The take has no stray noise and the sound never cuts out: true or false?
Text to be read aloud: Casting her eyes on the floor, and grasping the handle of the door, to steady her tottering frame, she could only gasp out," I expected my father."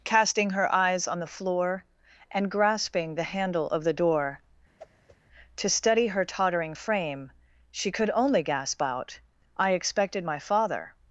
false